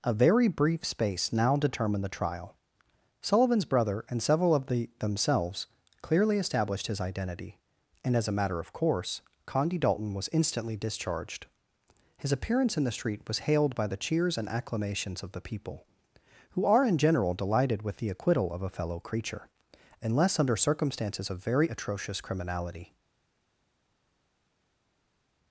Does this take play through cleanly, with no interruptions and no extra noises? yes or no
yes